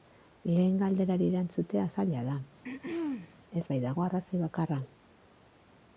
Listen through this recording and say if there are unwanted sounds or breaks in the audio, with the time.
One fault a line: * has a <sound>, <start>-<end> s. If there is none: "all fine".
* has a throat clearing, 2.6-3.4 s